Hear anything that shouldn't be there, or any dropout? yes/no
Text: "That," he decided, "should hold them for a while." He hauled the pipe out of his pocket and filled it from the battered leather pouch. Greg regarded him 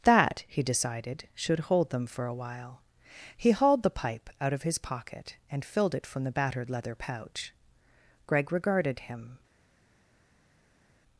no